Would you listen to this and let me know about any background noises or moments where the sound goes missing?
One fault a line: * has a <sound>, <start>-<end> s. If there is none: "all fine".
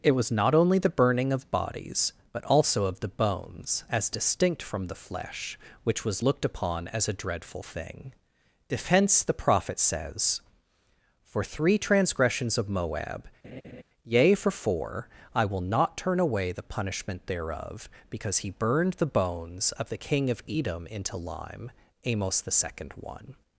* has a laugh, 13.4-13.8 s